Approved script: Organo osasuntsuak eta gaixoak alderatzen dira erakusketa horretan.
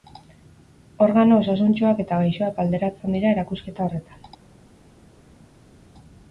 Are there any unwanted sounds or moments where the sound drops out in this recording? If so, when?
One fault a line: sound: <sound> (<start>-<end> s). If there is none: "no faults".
no faults